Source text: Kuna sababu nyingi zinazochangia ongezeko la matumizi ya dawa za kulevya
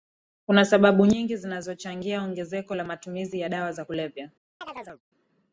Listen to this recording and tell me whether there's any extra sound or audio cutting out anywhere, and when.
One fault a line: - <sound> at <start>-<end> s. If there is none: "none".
- chirp at 4.6-5.0 s